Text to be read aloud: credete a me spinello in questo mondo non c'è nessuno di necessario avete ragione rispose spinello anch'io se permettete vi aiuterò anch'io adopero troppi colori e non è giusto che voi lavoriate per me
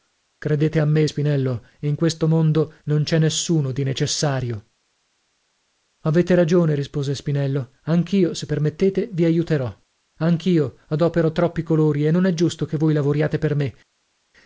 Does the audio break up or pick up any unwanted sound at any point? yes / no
no